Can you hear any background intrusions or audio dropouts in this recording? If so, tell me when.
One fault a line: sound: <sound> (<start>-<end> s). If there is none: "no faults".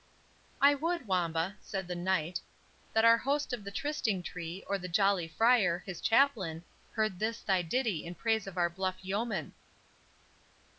no faults